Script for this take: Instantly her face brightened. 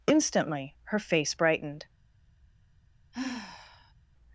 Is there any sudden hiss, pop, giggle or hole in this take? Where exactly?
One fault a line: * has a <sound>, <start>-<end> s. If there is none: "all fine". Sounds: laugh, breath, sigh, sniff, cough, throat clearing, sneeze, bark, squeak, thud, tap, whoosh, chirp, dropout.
* has a sigh, 3.1-3.9 s